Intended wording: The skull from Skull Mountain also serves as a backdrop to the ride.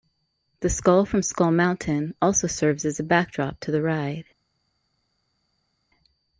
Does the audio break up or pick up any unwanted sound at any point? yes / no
no